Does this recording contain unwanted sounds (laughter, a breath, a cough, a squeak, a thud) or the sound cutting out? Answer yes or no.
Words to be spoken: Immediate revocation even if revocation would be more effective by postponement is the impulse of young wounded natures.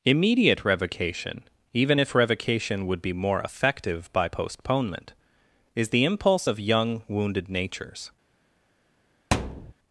yes